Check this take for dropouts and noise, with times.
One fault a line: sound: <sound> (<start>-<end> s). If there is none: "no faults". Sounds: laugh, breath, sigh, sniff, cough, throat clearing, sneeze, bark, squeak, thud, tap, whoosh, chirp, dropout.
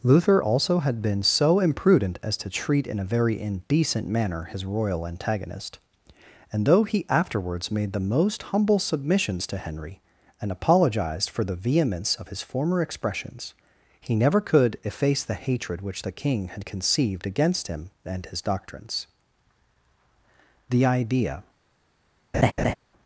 sound: laugh (22.3-22.7 s)